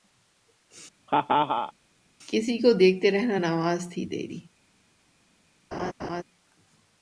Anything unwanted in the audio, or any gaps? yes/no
yes